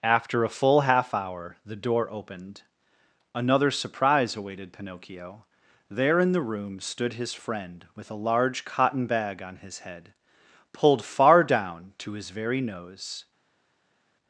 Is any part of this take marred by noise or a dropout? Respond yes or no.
no